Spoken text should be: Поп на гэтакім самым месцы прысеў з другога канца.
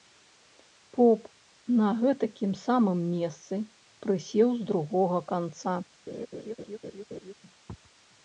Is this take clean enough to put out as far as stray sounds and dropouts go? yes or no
no